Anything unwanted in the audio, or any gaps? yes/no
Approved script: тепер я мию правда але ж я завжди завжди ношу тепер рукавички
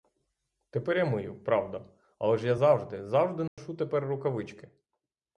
yes